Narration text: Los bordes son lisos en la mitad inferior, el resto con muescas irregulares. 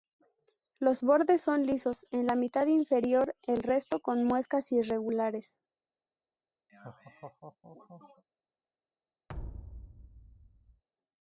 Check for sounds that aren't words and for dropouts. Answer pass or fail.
fail